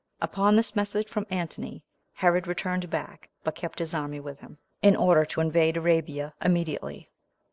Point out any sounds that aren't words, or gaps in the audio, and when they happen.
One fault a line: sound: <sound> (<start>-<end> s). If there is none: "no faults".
no faults